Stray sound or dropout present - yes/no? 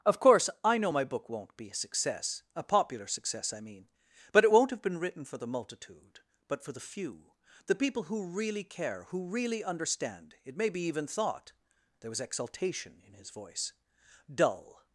no